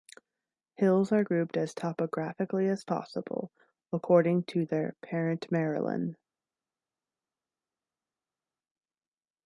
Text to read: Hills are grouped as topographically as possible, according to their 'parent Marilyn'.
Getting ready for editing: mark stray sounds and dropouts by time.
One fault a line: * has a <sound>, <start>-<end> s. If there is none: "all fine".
all fine